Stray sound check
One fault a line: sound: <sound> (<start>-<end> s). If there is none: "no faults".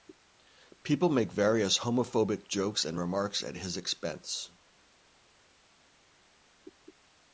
no faults